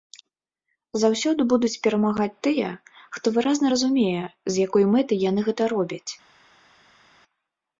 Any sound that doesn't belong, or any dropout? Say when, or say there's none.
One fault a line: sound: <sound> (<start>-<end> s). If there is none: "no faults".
no faults